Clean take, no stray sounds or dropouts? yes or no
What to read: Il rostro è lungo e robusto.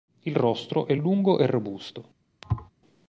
no